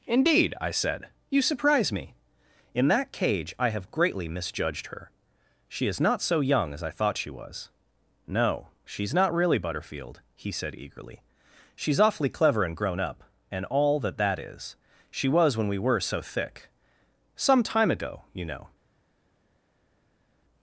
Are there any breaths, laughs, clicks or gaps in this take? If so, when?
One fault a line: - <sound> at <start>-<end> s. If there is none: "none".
none